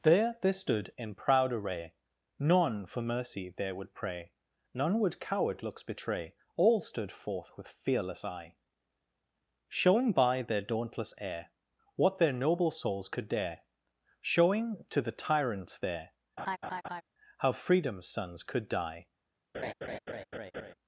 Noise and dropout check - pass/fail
fail